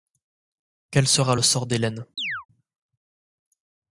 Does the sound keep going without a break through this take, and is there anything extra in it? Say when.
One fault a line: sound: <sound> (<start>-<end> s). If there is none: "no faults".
sound: chirp (2.2-2.5 s)